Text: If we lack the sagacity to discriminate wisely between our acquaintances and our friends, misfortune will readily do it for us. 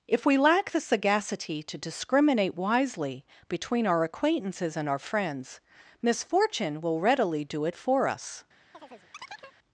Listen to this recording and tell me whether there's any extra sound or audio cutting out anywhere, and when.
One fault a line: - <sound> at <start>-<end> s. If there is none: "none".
- chirp at 8.7-9.6 s